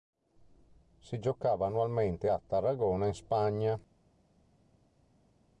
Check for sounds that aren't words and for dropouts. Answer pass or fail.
pass